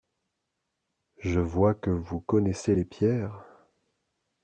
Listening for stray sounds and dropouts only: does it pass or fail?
pass